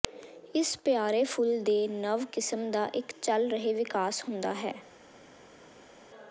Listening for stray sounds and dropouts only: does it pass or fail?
pass